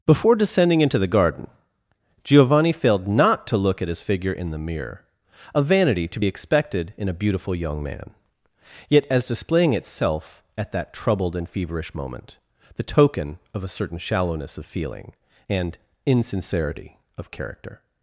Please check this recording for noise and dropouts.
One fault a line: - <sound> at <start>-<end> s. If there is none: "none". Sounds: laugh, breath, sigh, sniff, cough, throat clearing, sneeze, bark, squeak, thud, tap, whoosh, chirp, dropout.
none